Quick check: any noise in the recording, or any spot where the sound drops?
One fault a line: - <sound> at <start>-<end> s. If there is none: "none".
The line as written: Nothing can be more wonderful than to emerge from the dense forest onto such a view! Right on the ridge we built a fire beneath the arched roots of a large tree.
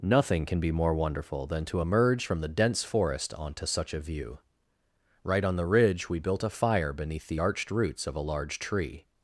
none